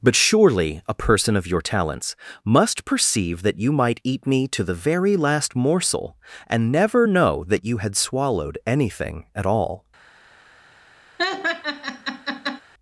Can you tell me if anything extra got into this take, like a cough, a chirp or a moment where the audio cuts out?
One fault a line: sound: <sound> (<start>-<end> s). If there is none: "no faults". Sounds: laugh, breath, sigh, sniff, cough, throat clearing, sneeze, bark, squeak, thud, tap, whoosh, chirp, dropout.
sound: laugh (11.2-12.6 s)